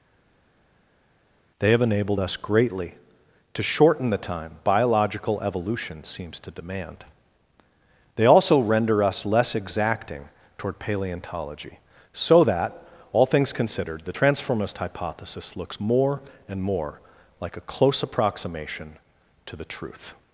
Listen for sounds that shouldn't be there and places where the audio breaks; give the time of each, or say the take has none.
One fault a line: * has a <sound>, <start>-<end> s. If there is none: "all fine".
all fine